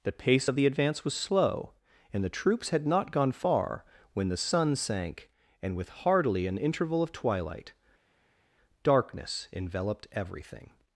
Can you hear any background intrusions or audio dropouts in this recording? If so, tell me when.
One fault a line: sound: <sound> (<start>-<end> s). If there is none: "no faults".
no faults